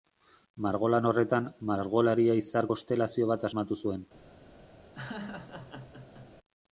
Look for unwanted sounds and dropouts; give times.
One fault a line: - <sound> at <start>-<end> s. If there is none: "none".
- laugh at 5.0-6.3 s